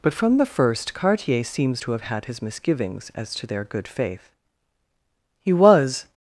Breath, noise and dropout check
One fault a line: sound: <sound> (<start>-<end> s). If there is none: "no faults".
no faults